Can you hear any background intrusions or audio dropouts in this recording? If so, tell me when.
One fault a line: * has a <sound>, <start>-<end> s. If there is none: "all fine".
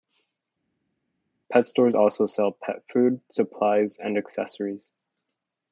all fine